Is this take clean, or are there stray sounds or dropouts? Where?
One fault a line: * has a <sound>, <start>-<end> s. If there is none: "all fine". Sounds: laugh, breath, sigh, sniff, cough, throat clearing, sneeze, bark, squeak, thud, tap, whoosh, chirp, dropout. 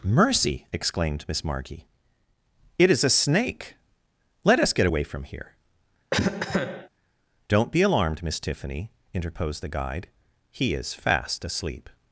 * has a cough, 6.1-6.9 s